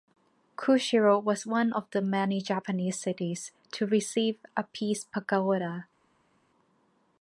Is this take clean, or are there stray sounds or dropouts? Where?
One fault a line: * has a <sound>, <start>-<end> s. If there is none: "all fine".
all fine